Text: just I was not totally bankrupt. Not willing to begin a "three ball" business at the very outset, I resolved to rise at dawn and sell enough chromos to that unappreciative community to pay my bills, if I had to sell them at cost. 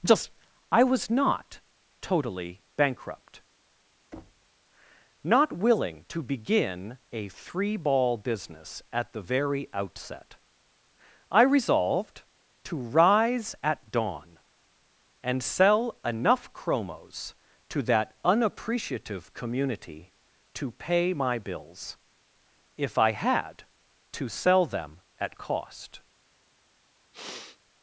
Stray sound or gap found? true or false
true